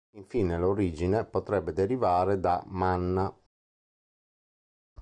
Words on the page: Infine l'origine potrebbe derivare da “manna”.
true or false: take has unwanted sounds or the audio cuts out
false